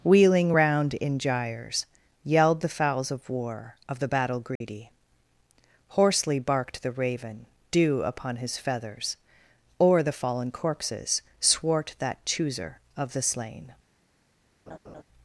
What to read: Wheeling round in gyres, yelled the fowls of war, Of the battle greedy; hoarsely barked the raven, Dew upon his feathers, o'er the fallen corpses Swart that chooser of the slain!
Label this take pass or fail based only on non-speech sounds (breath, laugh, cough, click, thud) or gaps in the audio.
fail